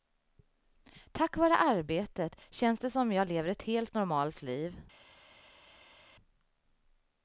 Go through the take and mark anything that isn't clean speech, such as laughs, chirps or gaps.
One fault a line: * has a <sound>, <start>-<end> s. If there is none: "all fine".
all fine